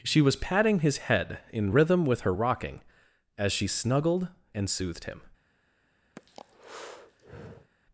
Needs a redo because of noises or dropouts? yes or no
yes